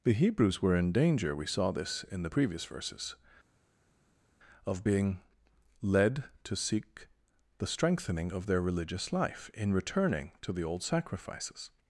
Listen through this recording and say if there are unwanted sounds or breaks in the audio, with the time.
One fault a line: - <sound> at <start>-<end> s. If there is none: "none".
none